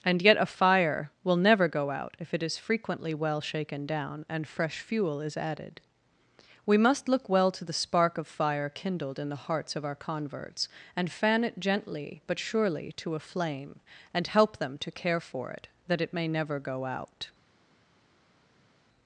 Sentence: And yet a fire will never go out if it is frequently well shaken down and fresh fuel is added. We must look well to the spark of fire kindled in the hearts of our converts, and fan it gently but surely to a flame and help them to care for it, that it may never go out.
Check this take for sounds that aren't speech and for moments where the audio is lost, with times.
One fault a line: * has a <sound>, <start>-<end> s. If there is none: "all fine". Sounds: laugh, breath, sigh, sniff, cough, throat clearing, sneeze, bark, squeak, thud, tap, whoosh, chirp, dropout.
all fine